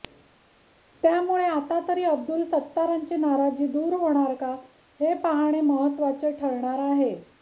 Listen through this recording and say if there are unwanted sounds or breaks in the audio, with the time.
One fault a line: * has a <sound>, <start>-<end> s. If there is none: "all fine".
all fine